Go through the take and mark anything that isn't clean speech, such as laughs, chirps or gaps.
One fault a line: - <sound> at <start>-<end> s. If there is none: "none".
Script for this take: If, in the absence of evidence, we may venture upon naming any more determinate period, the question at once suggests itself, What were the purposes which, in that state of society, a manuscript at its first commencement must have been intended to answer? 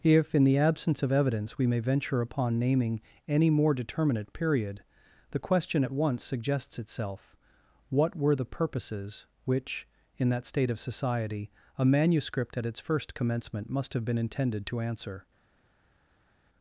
none